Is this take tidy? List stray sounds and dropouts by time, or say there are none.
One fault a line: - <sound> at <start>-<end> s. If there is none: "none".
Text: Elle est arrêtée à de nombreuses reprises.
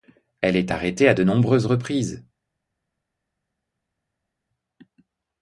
none